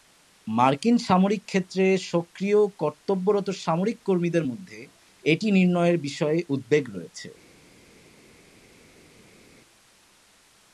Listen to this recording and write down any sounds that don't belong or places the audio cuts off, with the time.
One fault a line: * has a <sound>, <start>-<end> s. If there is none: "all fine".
all fine